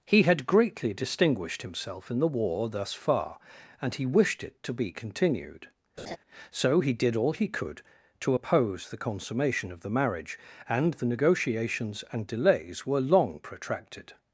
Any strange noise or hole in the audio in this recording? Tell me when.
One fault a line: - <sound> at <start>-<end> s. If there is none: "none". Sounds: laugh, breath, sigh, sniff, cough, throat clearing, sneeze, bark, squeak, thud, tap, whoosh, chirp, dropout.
- laugh at 6.0-6.2 s